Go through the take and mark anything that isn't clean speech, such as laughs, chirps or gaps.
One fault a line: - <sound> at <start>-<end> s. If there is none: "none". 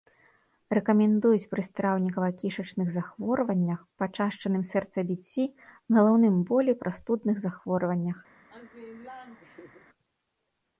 - laugh at 8.5-9.9 s